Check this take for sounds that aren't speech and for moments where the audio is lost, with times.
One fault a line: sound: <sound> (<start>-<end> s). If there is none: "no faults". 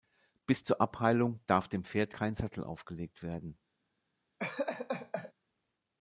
sound: laugh (4.4-5.3 s)